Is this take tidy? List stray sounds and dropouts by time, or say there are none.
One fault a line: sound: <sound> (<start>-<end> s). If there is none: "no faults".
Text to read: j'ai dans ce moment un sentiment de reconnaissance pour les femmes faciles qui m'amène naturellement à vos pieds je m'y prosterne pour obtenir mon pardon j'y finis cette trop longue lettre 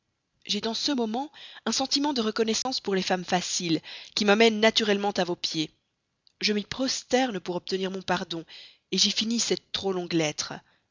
sound: dropout (2.6-2.7 s)